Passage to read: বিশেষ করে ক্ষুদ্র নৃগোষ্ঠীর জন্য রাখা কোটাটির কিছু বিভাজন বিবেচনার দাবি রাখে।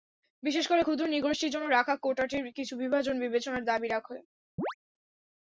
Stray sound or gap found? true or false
true